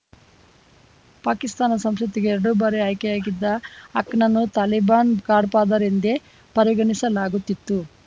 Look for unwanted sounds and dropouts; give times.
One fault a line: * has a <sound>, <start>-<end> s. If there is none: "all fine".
all fine